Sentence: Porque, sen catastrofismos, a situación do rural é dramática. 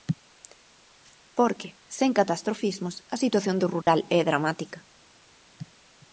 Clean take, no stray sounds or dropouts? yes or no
no